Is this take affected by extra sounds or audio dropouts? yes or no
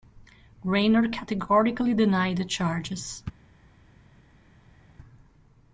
no